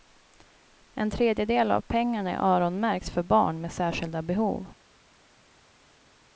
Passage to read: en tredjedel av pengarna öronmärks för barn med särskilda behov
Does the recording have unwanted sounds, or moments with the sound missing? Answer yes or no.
no